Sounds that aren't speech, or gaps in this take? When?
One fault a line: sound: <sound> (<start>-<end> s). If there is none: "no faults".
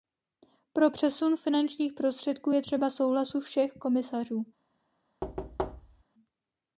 sound: thud (5.2-6.0 s)